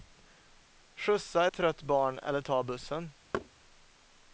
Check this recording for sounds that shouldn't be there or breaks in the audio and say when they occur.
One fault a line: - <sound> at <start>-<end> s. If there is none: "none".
- thud at 3.3-3.5 s